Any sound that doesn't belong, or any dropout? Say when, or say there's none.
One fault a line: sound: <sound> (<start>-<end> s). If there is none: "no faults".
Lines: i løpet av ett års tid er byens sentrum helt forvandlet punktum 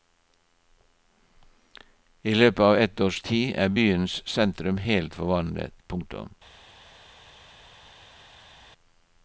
no faults